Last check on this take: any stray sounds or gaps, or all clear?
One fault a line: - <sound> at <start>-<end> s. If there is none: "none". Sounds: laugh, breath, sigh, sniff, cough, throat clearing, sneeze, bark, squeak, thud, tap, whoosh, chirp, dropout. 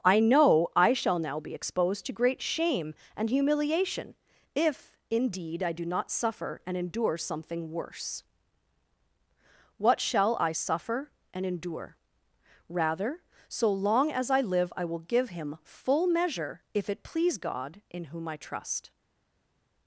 none